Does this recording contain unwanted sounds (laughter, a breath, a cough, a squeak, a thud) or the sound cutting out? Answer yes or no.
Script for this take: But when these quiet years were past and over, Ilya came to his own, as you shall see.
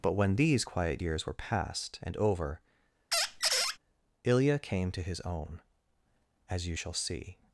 yes